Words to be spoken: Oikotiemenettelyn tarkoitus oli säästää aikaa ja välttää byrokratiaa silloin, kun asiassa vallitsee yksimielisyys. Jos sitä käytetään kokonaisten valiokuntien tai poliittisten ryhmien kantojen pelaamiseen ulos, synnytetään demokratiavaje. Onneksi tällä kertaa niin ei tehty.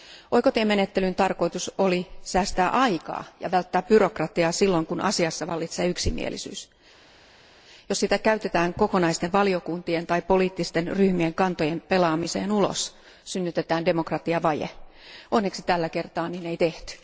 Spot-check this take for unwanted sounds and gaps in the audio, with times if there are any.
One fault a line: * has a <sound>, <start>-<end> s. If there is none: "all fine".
all fine